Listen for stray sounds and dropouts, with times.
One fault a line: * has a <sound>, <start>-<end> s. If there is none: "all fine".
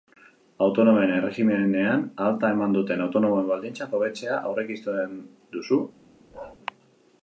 * has a bark, 6.3-6.6 s